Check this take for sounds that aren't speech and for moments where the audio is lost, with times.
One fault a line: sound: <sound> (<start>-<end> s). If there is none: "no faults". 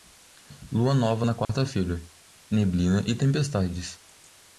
sound: dropout (1.4-1.5 s)